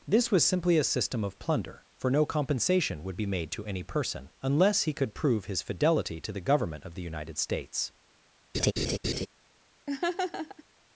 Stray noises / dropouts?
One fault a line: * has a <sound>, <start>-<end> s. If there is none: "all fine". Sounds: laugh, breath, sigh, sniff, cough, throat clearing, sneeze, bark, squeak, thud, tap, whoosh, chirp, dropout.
* has a laugh, 8.5-9.3 s
* has a laugh, 9.9-10.6 s